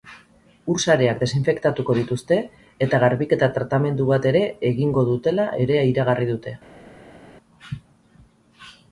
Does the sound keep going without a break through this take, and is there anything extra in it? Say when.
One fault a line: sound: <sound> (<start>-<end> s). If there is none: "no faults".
no faults